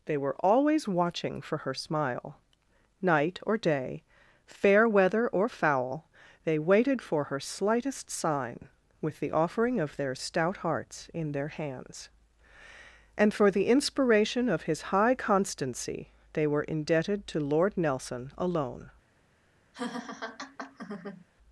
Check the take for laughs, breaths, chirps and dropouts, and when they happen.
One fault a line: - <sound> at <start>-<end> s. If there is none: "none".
- laugh at 19.7-21.3 s